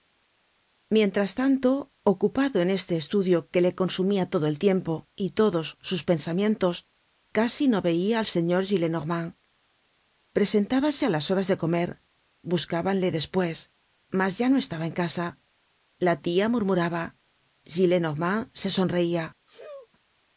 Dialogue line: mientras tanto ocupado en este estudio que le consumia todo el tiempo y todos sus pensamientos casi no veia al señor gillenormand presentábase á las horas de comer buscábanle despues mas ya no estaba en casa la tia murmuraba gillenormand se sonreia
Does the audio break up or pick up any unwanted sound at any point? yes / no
yes